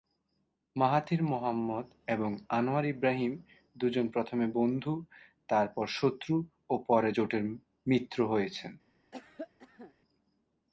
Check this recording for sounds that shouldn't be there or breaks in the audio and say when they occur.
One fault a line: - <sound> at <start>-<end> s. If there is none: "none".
- cough at 9.1-9.9 s